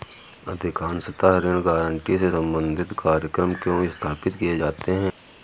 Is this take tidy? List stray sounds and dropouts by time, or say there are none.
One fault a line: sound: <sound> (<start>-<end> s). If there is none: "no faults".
no faults